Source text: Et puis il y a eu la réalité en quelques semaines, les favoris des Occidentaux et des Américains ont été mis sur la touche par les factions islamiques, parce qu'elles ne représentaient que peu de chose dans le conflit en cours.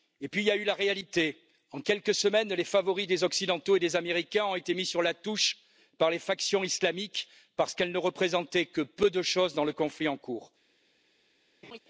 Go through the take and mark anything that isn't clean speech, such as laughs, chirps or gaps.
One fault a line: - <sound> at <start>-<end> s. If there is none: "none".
- laugh at 11.6-11.8 s